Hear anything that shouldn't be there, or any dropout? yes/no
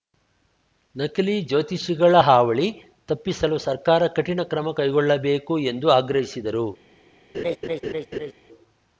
yes